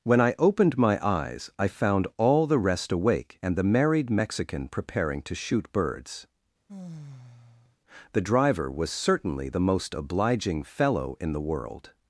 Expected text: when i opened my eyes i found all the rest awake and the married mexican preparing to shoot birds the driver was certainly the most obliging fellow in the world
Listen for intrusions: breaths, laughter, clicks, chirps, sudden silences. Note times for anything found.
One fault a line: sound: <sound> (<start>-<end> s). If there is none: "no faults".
sound: sigh (6.7-7.8 s)